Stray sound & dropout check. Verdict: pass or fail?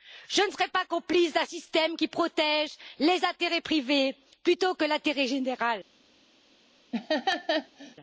fail